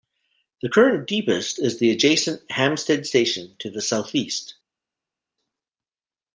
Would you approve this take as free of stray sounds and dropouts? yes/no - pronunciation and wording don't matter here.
yes